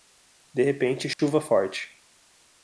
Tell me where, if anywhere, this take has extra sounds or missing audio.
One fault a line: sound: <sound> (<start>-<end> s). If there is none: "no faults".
sound: dropout (1.1-1.2 s)